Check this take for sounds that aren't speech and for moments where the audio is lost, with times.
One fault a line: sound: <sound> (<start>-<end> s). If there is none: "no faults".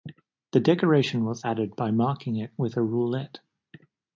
no faults